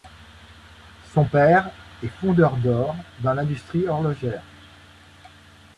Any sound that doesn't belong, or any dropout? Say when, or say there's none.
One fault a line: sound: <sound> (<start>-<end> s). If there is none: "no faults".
no faults